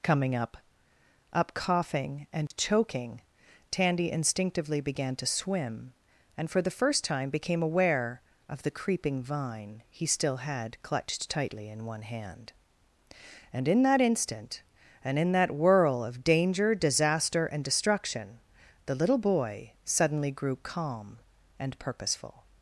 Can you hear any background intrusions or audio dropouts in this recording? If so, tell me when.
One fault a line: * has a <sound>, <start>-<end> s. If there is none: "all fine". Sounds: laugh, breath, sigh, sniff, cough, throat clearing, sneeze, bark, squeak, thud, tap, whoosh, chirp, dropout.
* has a dropout, 2.5-2.5 s